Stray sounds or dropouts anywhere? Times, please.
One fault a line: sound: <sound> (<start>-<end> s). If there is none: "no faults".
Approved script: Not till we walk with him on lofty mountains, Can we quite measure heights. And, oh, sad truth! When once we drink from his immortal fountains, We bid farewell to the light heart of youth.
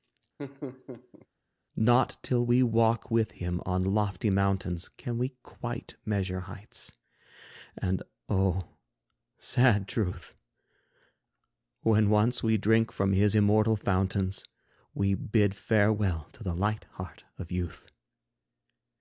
sound: laugh (0.4-1.3 s)